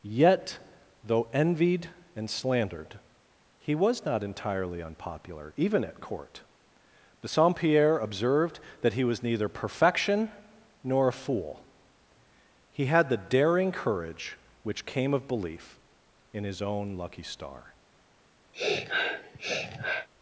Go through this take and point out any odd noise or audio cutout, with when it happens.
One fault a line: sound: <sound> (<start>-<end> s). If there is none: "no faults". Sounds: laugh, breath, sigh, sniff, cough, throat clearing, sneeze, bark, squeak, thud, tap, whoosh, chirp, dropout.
sound: sniff (18.5-20.1 s)